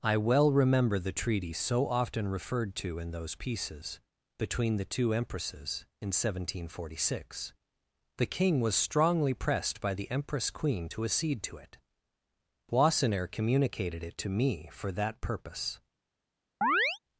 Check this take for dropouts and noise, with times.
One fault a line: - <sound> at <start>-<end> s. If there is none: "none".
- chirp at 16.6-17.0 s